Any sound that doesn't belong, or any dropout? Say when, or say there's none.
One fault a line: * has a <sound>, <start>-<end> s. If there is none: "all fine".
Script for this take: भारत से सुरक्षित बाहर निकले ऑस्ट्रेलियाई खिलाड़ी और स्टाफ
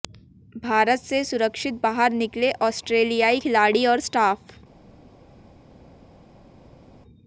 all fine